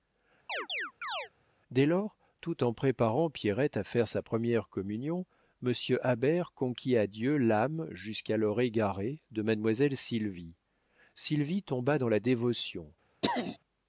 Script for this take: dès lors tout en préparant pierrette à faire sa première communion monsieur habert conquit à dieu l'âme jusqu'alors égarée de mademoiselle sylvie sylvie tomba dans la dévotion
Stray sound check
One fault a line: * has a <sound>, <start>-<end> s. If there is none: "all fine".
* has a chirp, 0.5-1.3 s
* has a throat clearing, 13.2-13.6 s